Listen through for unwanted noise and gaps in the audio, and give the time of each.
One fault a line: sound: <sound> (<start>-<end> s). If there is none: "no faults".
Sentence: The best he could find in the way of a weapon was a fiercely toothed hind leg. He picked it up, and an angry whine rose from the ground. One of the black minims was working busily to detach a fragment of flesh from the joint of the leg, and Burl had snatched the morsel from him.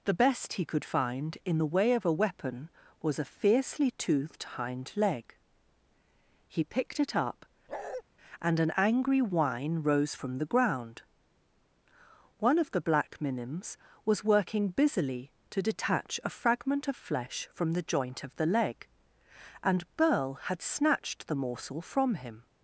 sound: bark (7.7-8.0 s)